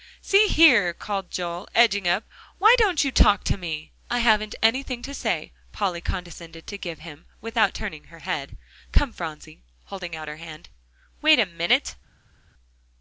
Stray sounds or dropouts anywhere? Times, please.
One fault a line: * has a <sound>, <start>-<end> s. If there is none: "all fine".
all fine